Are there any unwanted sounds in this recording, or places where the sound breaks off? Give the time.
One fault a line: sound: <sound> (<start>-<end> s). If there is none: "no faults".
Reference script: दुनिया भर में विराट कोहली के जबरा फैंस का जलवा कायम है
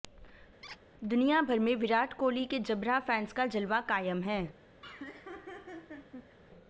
sound: squeak (0.6-0.8 s)
sound: laugh (4.8-6.4 s)